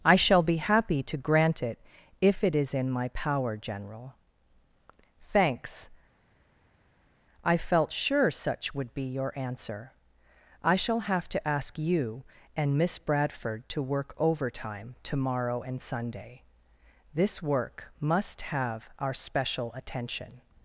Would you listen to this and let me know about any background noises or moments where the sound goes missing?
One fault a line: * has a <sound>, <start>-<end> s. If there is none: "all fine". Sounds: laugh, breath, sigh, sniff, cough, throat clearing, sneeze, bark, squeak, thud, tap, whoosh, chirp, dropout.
all fine